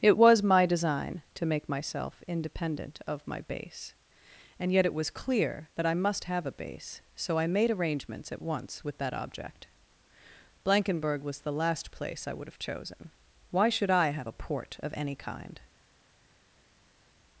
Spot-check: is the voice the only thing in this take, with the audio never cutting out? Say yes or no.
yes